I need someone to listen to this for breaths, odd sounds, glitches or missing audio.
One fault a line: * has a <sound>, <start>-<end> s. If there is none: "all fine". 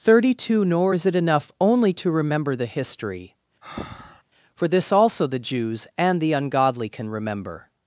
* has a breath, 3.6-4.2 s